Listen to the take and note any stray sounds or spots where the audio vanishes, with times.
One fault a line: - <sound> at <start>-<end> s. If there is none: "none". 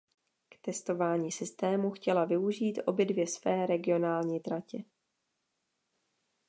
none